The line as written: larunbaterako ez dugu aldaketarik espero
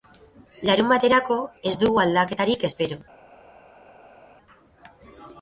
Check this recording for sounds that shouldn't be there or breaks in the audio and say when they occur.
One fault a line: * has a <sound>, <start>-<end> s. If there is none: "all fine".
all fine